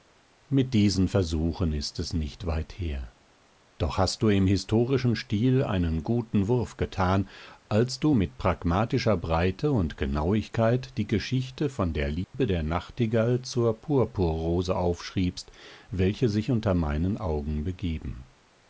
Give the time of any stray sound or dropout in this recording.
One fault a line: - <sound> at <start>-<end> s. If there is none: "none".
- dropout at 12.2-12.3 s